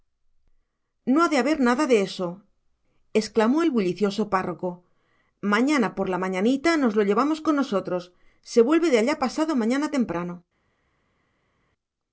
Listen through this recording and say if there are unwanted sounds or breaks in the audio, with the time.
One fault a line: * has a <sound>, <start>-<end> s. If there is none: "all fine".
all fine